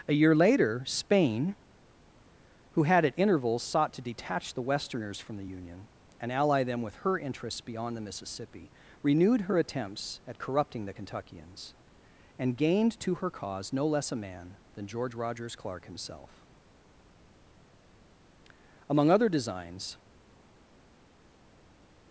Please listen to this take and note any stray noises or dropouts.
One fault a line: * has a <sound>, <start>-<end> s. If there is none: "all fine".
all fine